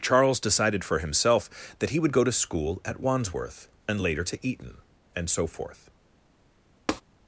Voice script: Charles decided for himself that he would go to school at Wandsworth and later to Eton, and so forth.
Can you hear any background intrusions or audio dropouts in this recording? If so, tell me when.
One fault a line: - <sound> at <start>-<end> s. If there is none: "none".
- tap at 6.9-7.0 s